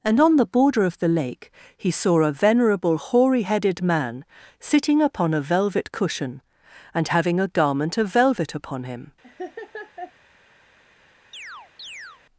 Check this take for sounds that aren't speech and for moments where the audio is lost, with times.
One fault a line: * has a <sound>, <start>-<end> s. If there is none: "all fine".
* has a laugh, 9.2-10.1 s
* has a chirp, 11.3-12.2 s